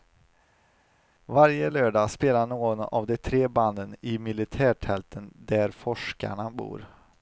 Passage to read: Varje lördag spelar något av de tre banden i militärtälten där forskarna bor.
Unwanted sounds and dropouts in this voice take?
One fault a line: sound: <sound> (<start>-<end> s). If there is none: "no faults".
no faults